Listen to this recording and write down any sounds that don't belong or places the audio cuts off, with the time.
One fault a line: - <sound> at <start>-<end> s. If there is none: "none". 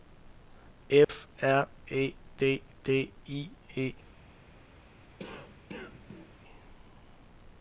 - dropout at 1.0-1.1 s
- cough at 5.2-6.3 s